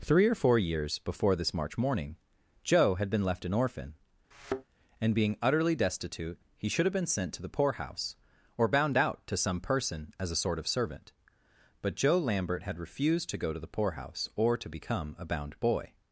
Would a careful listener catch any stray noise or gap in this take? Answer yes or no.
yes